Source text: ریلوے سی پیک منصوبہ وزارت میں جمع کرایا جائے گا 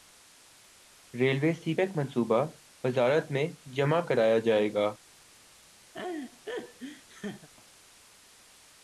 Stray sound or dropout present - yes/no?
yes